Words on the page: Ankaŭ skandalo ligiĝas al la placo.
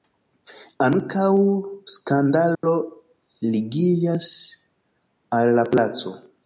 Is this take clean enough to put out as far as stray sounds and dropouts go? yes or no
no